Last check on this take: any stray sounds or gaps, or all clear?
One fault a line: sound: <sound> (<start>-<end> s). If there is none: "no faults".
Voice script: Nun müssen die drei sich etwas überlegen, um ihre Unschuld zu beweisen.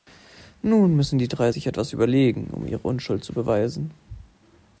no faults